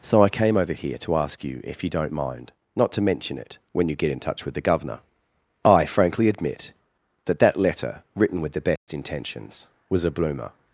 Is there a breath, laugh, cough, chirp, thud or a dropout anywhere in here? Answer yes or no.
yes